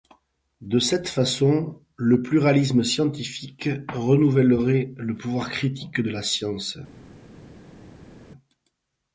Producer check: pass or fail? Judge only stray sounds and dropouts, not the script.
pass